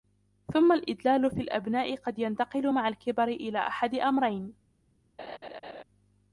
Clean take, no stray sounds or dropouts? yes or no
no